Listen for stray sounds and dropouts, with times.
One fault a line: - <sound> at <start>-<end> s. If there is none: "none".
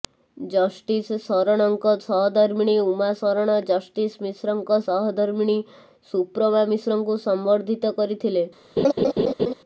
- laugh at 8.8-9.5 s